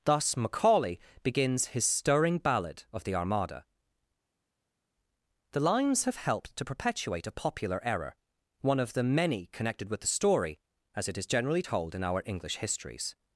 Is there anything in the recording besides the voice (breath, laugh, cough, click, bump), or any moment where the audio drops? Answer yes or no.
no